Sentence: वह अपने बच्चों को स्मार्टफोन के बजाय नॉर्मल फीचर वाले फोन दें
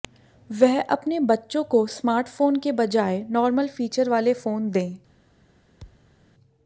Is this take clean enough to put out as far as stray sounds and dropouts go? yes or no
no